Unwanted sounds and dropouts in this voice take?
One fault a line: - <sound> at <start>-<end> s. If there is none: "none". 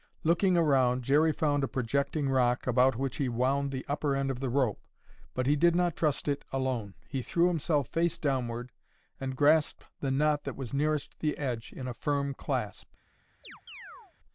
- chirp at 13.4-14.1 s